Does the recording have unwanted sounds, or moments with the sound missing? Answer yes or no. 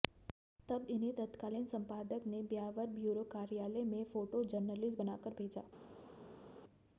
no